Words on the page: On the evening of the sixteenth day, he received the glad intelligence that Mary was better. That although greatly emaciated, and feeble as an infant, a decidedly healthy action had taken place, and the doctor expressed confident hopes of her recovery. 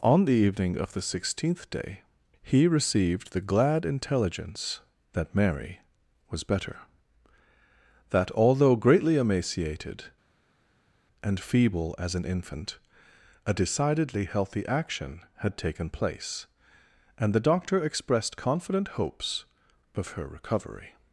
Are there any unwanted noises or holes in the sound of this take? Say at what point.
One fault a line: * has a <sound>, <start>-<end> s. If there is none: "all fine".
all fine